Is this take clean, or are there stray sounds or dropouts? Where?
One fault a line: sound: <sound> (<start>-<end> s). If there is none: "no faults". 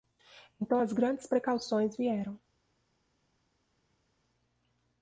no faults